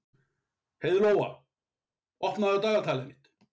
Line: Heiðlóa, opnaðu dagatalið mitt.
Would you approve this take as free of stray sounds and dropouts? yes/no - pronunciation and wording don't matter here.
yes